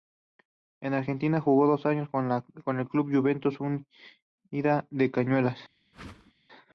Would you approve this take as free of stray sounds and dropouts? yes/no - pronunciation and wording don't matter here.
no